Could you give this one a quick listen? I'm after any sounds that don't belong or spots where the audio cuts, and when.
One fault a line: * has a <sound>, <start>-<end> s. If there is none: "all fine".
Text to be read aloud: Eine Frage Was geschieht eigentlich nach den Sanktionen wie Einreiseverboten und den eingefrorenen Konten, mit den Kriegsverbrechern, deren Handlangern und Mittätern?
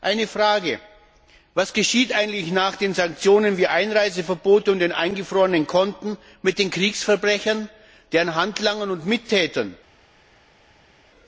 all fine